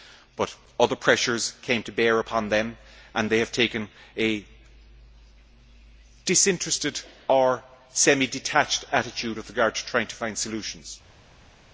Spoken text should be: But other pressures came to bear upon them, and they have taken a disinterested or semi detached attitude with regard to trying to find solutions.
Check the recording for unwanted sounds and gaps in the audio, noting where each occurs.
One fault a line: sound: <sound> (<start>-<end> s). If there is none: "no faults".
no faults